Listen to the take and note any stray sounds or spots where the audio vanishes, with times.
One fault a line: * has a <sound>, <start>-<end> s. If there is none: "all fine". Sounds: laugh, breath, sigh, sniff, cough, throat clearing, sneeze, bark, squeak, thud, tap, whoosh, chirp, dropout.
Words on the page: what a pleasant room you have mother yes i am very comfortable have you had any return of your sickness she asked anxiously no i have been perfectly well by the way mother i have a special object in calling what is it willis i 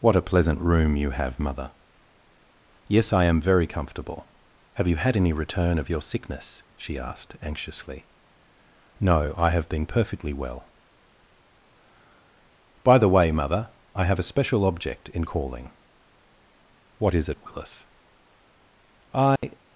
* has a dropout, 19.4-19.4 s